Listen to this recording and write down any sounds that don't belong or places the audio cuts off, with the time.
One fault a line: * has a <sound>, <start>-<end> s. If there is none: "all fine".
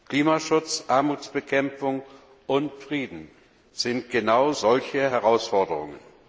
all fine